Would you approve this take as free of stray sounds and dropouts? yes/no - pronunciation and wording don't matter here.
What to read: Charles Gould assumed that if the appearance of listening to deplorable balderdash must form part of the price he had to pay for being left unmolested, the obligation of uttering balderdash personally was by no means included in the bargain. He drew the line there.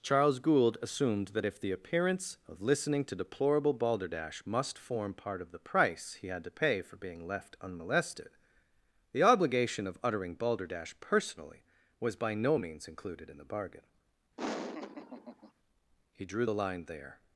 no